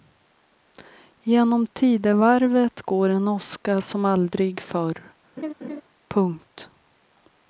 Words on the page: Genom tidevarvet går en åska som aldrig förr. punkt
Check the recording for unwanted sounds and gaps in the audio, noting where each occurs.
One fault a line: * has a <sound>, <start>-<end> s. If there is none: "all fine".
* has a laugh, 5.4-5.8 s